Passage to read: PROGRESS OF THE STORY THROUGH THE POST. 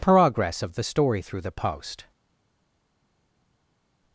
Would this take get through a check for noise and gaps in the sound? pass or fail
pass